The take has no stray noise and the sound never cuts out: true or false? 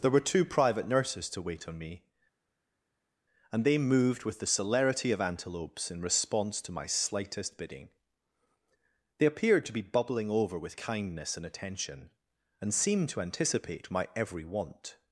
true